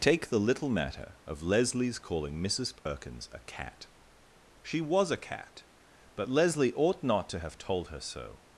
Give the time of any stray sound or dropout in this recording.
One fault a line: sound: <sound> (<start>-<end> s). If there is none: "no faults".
sound: dropout (2.8-2.9 s)